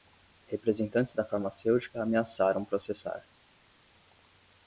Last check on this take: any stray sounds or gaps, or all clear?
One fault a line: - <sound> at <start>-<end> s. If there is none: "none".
none